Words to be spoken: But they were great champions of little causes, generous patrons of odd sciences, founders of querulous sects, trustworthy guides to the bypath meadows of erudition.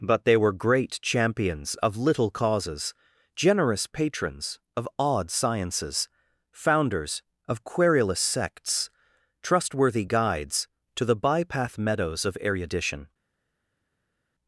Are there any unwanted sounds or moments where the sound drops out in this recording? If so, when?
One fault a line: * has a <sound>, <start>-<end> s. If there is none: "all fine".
all fine